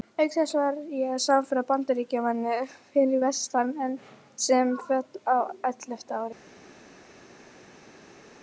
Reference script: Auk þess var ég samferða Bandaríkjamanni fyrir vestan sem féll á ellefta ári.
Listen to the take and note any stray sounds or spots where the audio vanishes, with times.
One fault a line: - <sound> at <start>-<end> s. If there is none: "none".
none